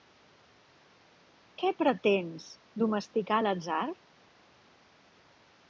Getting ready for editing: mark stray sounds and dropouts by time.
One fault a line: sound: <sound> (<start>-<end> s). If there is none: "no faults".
no faults